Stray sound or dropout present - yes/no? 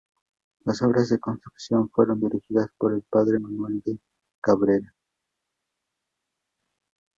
no